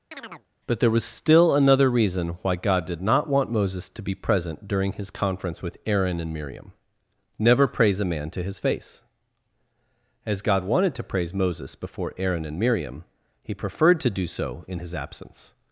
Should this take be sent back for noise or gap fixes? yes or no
yes